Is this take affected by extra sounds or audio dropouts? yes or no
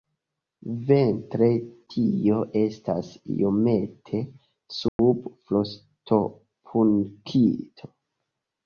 yes